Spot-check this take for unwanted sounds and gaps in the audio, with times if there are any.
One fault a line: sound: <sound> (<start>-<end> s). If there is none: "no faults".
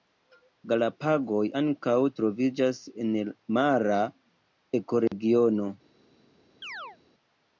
sound: dropout (5.1-5.1 s)
sound: chirp (6.6-7.0 s)